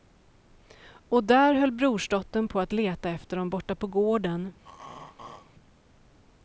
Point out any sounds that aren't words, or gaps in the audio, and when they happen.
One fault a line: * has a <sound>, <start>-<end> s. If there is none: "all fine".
* has a throat clearing, 4.6-5.5 s